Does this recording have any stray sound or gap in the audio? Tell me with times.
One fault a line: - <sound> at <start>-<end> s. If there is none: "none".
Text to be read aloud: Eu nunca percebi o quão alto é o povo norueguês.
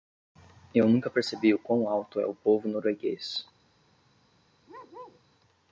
- bark at 4.7-5.2 s